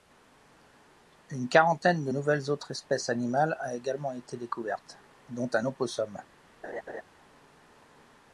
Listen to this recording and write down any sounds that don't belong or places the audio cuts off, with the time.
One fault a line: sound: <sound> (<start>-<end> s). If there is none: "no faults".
sound: laugh (6.6-7.0 s)